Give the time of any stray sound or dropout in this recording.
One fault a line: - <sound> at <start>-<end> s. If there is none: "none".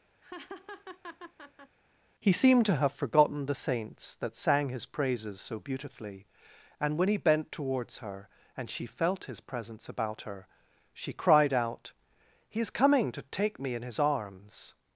- laugh at 0.2-1.8 s